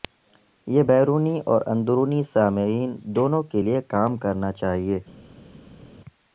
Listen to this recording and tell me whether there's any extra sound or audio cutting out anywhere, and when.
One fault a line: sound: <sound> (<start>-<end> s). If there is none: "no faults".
no faults